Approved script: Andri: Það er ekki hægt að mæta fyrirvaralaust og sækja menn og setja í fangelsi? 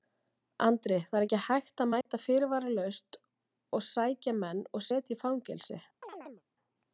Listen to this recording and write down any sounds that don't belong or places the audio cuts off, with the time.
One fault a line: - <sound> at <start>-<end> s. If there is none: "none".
- dropout at 2.0-2.1 s
- chirp at 6.0-6.4 s